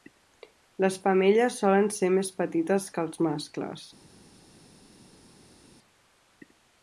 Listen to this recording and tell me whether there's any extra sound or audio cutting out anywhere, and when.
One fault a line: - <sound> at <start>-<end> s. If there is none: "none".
none